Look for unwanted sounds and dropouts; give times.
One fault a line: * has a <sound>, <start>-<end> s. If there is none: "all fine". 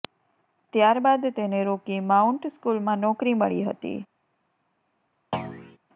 * has a thud, 5.3-5.8 s